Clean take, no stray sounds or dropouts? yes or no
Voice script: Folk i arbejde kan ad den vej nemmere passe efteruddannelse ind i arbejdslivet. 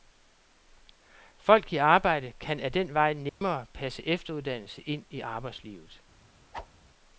no